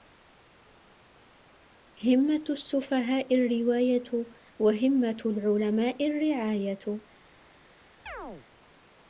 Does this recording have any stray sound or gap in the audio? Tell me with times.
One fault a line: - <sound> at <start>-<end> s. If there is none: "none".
- chirp at 8.1-8.5 s